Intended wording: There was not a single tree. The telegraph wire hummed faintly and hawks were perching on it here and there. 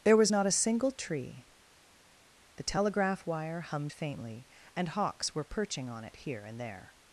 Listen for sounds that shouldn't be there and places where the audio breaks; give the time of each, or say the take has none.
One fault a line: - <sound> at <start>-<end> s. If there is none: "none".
none